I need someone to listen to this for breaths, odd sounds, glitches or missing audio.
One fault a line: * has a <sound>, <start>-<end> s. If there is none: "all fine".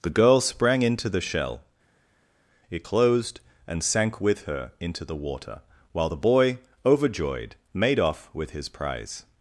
all fine